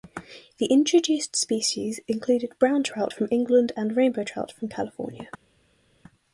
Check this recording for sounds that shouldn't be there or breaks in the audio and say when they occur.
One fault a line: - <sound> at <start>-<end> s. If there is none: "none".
none